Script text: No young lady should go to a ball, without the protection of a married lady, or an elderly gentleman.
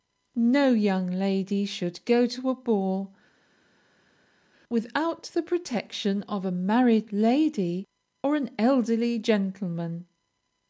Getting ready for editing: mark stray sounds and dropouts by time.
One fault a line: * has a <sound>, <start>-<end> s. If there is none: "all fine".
all fine